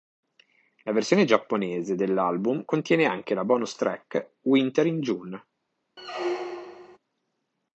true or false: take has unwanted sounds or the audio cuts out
true